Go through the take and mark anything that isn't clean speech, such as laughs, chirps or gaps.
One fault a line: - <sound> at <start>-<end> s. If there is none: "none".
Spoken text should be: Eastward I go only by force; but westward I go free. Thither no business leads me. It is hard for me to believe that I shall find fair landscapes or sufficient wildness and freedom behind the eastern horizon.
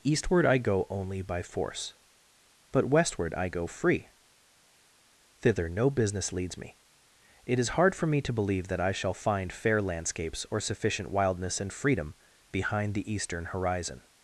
none